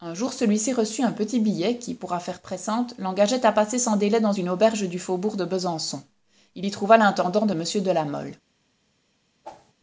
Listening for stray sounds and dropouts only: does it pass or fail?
fail